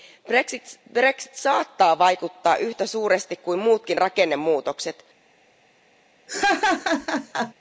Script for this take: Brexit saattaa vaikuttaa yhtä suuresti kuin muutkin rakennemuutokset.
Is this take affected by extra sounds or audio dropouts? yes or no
yes